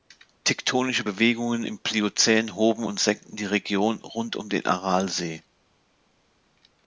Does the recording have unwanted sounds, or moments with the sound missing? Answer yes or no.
no